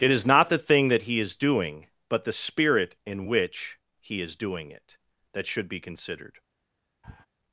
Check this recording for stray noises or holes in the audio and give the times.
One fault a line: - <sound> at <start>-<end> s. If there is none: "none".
- sniff at 7.0-7.3 s